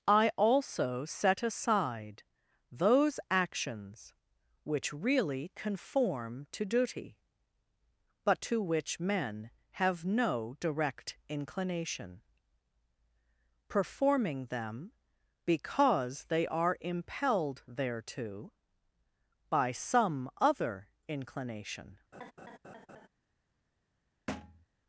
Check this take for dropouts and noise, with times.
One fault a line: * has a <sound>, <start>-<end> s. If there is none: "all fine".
* has a laugh, 22.1-23.1 s
* has a thud, 24.3-24.7 s